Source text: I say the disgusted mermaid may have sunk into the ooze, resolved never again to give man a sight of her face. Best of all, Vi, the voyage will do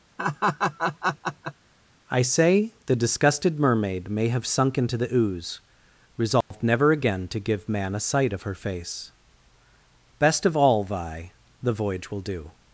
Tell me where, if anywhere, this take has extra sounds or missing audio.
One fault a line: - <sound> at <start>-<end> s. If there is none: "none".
- laugh at 0.2-1.5 s
- dropout at 6.4-6.5 s